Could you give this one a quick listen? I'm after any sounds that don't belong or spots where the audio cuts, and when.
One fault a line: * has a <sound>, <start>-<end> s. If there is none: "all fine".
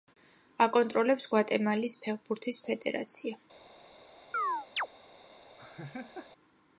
* has a chirp, 4.3-4.9 s
* has a laugh, 5.6-6.3 s